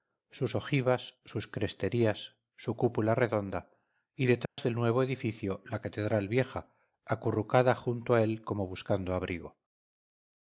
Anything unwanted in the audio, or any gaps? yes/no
yes